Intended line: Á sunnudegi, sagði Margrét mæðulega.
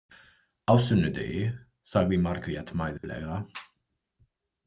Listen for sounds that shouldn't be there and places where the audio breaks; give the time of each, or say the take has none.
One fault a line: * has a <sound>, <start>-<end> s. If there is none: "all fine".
* has a dropout, 3.0-3.0 s